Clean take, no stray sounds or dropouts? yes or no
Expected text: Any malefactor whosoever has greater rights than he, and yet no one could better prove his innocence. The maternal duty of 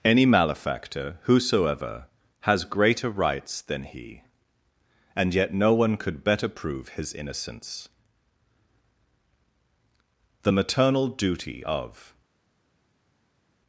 yes